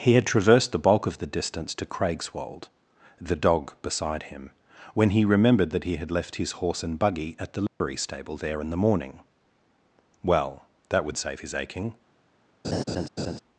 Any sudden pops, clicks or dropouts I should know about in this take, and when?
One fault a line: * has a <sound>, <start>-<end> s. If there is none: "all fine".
* has a dropout, 7.7-7.8 s
* has a laugh, 12.6-13.4 s